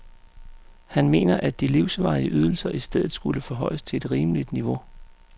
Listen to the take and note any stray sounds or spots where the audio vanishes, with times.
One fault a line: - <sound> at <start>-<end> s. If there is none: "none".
none